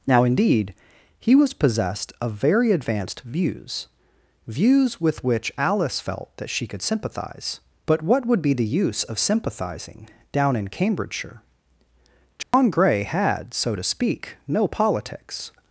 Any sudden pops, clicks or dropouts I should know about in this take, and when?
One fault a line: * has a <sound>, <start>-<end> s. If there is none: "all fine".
* has a dropout, 12.4-12.5 s